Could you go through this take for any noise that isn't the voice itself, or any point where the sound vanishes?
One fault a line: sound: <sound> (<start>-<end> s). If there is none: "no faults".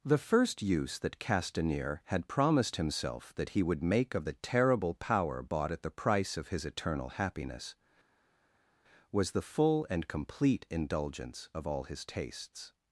no faults